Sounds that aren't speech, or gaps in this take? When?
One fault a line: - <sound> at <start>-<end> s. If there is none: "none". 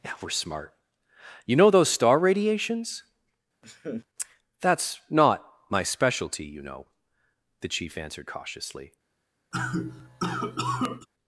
- laugh at 3.6-4.1 s
- cough at 9.5-11.1 s